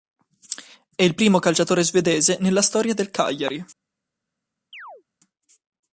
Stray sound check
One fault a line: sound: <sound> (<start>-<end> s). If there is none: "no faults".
sound: chirp (4.7-5.0 s)